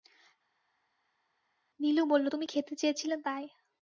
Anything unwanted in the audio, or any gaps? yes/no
no